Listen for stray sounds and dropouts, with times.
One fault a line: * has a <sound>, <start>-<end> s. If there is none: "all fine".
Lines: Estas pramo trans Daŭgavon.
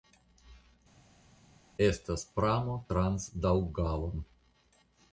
all fine